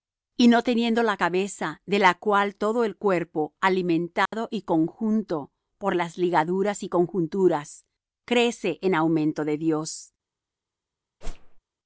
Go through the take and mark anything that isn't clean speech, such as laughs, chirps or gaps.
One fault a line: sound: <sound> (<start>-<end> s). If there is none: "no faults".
sound: dropout (4.3-4.3 s)
sound: whoosh (11.2-11.6 s)